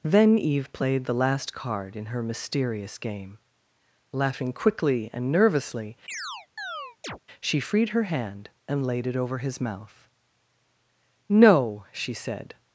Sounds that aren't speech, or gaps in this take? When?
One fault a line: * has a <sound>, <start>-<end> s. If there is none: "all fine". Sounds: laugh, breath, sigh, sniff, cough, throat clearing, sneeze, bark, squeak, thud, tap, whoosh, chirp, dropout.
* has a chirp, 6.1-7.2 s